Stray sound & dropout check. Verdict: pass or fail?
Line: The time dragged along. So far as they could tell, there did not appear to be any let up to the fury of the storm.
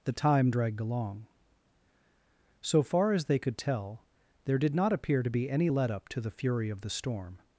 pass